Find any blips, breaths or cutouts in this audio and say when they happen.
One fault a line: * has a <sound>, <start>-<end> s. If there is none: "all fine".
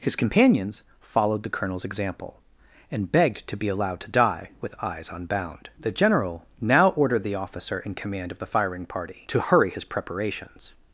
all fine